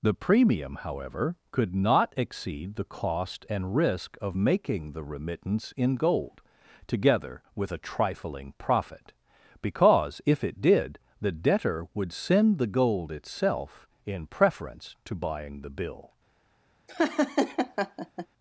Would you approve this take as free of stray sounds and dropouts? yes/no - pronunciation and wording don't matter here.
no